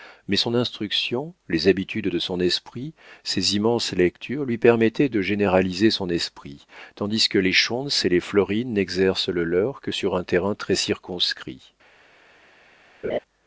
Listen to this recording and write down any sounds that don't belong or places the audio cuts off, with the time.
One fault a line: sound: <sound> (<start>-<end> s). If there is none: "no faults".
sound: laugh (13.0-13.2 s)